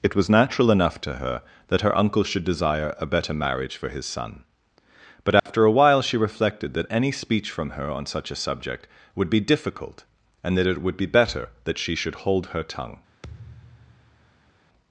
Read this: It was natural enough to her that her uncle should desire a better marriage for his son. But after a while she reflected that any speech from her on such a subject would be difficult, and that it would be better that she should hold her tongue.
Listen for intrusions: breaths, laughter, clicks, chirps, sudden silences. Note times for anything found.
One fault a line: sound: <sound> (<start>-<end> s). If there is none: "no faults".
sound: dropout (5.4-5.5 s)
sound: thud (13.2-14.5 s)